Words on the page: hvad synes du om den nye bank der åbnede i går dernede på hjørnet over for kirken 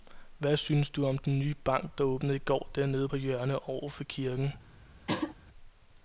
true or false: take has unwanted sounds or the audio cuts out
true